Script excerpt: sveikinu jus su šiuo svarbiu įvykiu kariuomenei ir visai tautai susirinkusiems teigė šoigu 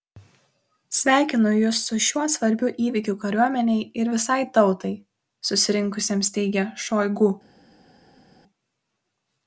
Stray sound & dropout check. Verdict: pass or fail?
pass